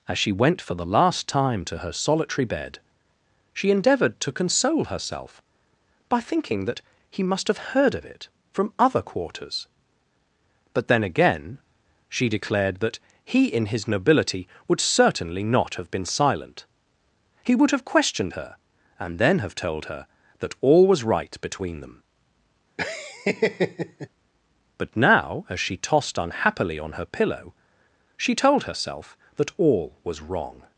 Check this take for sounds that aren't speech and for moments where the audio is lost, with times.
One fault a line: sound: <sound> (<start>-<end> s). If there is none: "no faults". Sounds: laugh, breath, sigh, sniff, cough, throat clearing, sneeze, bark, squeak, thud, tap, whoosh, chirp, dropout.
sound: laugh (22.8-24.1 s)